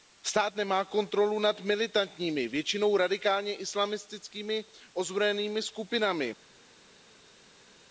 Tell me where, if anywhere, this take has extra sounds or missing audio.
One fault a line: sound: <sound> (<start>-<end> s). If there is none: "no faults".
no faults